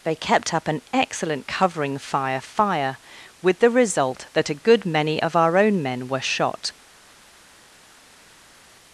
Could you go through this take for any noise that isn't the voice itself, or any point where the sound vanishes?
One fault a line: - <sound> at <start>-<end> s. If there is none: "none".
none